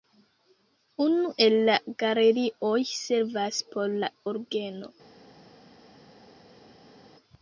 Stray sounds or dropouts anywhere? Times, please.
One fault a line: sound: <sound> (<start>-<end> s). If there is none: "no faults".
no faults